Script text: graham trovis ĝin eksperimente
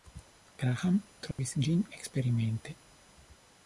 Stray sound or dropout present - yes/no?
yes